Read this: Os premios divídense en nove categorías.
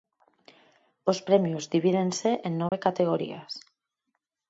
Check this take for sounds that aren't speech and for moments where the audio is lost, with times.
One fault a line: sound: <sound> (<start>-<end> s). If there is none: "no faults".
sound: dropout (2.7-2.7 s)